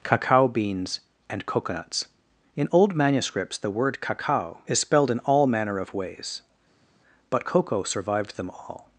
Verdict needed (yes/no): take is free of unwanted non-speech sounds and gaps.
yes